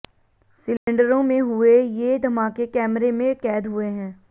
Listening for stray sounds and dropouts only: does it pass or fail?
fail